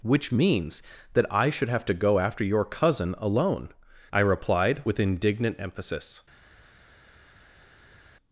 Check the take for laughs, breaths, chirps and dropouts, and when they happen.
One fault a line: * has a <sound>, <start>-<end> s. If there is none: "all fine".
all fine